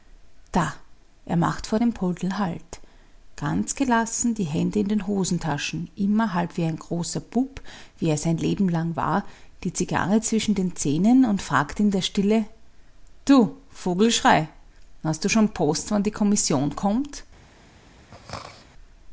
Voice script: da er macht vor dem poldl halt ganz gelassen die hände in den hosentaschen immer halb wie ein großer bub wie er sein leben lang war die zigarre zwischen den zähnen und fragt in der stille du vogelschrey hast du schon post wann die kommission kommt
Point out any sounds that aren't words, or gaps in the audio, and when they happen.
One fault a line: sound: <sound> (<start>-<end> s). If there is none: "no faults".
sound: throat clearing (18.1-18.7 s)